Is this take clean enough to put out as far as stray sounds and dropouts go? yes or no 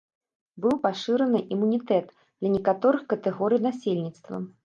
yes